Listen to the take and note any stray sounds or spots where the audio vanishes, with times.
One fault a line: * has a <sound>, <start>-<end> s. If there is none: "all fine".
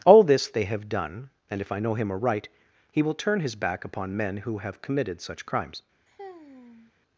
* has a sigh, 6.1-6.9 s